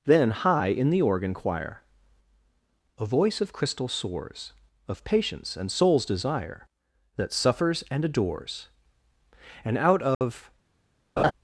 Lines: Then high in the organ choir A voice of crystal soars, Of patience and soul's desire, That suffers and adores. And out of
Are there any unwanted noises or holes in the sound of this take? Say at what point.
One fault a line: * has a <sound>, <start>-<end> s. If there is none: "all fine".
* has a dropout, 10.1-10.2 s
* has a laugh, 11.2-11.3 s